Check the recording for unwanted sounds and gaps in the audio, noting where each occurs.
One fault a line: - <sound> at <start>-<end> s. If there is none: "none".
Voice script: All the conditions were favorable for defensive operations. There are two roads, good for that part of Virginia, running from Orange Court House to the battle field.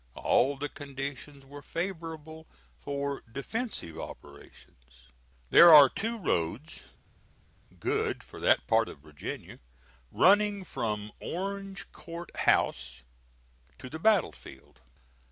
none